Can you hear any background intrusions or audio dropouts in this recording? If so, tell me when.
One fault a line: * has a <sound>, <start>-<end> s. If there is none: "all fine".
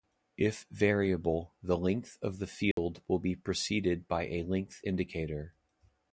* has a dropout, 2.7-2.8 s